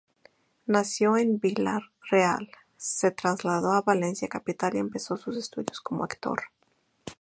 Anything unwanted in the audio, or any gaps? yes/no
no